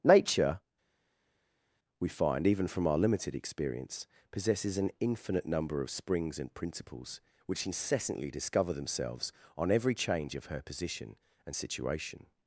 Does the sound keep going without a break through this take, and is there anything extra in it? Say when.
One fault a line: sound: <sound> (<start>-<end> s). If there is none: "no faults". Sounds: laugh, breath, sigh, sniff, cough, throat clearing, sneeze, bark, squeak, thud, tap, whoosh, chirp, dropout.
no faults